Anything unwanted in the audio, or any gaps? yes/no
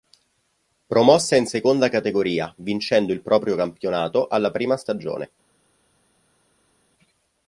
no